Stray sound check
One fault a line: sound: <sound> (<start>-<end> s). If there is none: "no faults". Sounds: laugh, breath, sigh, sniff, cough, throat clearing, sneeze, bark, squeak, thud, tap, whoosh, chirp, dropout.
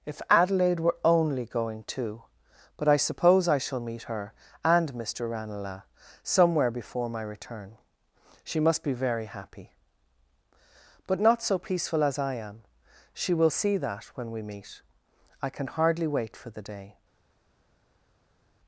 no faults